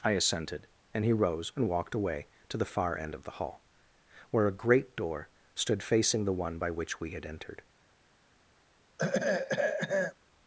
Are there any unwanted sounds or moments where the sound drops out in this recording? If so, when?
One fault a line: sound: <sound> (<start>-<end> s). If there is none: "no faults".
sound: throat clearing (9.0-10.1 s)